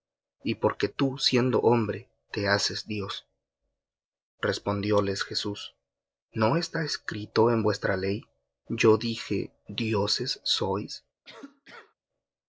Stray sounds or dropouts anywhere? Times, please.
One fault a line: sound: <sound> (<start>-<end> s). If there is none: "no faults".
sound: cough (11.2-11.9 s)